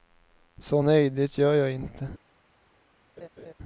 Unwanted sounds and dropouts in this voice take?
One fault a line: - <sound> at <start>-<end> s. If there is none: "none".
- laugh at 3.2-3.5 s